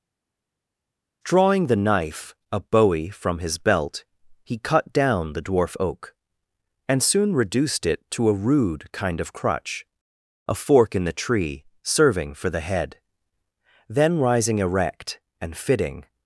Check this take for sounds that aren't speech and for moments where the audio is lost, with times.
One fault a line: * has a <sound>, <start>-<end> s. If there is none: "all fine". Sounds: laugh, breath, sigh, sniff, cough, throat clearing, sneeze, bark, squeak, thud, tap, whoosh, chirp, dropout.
all fine